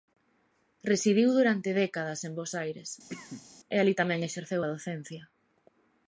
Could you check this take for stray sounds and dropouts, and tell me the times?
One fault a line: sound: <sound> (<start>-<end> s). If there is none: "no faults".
sound: cough (3.1-3.5 s)